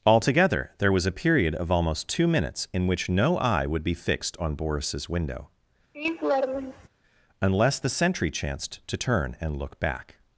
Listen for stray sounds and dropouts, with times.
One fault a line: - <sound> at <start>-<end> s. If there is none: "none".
- laugh at 5.9-6.9 s